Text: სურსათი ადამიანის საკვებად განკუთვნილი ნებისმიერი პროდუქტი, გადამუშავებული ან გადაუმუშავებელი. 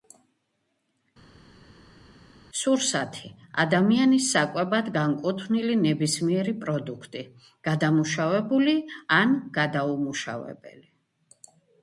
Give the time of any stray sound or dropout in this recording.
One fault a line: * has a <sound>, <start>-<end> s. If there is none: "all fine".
all fine